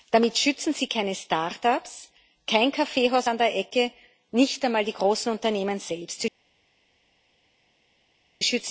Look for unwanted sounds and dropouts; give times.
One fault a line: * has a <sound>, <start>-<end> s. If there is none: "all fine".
all fine